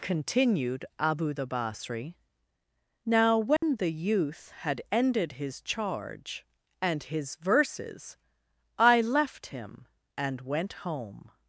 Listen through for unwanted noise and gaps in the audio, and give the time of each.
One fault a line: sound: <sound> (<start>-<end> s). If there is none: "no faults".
sound: dropout (3.6-3.6 s)